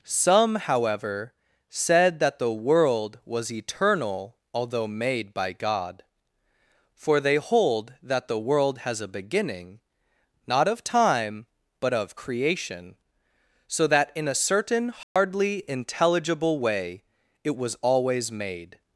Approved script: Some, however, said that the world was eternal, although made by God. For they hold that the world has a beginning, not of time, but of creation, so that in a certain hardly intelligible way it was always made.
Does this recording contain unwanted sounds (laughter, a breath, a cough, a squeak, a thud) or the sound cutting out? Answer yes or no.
yes